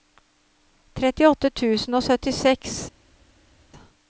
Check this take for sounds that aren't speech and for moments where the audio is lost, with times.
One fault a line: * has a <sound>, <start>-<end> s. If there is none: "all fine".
all fine